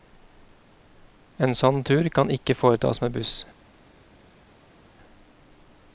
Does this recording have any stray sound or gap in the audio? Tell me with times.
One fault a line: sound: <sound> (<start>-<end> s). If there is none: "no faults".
no faults